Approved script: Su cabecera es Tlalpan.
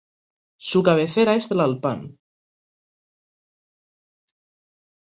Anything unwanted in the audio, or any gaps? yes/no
no